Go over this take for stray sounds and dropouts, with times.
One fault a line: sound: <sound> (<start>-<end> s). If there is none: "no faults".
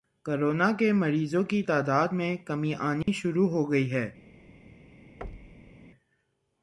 sound: dropout (3.0-3.1 s)
sound: thud (5.2-5.8 s)